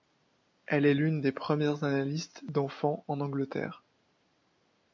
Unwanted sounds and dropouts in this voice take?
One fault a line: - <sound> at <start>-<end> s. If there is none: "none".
none